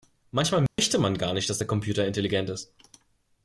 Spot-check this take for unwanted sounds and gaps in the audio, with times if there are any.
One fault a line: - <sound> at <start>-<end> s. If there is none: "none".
- dropout at 0.7-0.8 s